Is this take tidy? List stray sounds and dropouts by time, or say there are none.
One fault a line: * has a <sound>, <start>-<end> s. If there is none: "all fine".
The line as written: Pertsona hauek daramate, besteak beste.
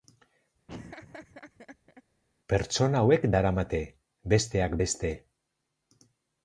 * has a laugh, 0.7-2.0 s